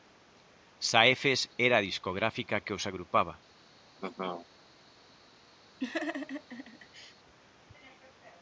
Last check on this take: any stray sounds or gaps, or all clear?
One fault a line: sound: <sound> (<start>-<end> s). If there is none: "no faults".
sound: laugh (4.0-4.5 s)
sound: laugh (5.8-7.1 s)